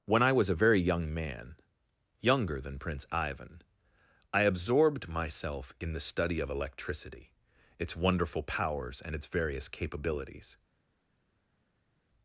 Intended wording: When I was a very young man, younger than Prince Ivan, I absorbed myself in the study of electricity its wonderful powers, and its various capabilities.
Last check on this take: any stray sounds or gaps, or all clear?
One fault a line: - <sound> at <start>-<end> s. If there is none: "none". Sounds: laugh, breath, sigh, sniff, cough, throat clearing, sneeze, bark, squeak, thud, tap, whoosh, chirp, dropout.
none